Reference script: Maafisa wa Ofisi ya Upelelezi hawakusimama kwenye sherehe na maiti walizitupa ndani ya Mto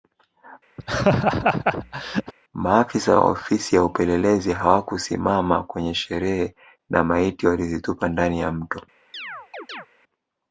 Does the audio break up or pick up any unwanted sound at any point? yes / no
yes